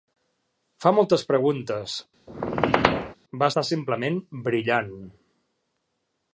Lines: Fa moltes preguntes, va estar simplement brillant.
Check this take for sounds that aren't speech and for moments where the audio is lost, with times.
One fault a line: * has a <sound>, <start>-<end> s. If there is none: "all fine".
* has a squeak, 2.3-3.2 s